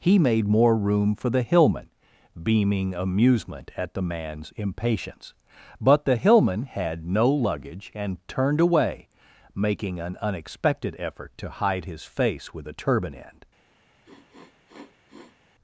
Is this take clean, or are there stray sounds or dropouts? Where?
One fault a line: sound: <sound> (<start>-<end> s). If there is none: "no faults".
sound: sniff (14.0-15.4 s)